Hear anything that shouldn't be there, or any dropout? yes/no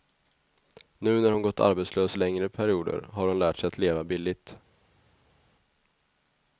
no